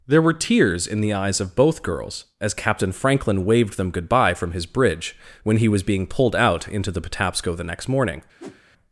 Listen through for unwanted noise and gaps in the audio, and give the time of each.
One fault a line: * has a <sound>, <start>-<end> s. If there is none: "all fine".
* has a whoosh, 8.4-8.6 s